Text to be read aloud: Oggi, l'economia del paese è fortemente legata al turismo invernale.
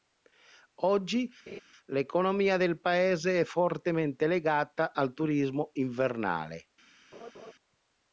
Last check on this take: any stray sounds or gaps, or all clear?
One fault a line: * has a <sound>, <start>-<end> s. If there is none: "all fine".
* has a laugh, 1.5-1.6 s
* has a laugh, 7.1-7.5 s